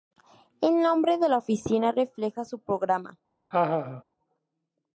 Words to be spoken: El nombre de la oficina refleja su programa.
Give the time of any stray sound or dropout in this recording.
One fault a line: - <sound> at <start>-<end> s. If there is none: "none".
- laugh at 3.5-4.0 s